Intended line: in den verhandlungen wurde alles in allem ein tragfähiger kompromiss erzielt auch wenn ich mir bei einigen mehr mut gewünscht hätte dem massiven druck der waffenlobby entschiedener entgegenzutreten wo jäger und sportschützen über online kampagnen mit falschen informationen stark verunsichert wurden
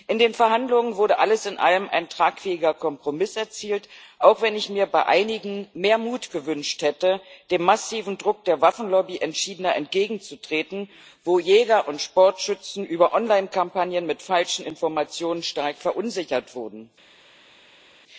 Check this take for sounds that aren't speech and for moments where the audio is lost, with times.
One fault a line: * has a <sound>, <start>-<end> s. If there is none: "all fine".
all fine